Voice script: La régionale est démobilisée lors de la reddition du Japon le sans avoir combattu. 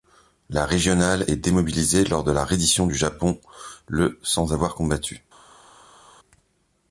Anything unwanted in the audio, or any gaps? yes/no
no